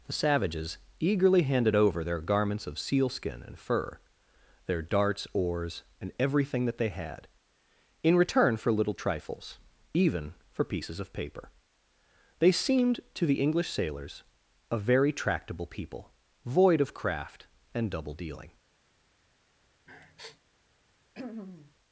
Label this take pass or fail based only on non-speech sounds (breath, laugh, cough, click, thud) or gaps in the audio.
fail